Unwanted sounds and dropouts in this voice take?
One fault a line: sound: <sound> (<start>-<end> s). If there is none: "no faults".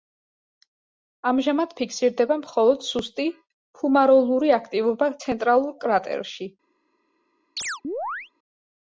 sound: chirp (7.6-8.3 s)